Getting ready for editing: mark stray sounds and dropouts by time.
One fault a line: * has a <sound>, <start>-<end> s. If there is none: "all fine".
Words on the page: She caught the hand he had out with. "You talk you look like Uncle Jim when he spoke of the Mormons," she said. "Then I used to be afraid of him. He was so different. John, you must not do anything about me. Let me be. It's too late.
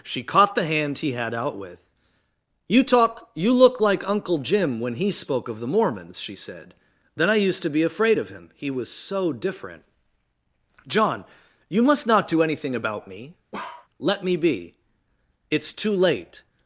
* has a bark, 13.5-13.9 s